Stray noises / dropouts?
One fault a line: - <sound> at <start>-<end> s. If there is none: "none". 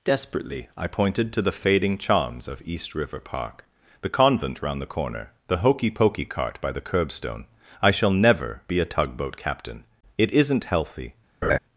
- laugh at 11.4-11.6 s